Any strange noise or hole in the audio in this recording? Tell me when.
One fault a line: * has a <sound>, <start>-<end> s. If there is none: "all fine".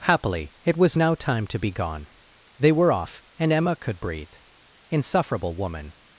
all fine